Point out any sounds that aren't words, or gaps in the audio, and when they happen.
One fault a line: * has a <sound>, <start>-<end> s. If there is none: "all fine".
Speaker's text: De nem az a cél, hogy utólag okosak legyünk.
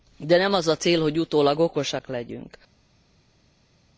all fine